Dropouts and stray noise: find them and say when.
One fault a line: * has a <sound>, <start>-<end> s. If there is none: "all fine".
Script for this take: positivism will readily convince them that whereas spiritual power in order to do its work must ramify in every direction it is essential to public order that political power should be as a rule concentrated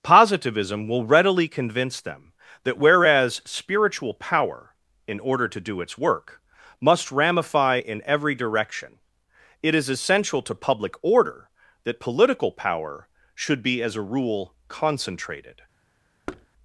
* has a thud, 16.3-16.5 s